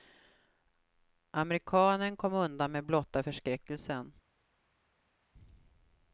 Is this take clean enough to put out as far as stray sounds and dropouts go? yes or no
yes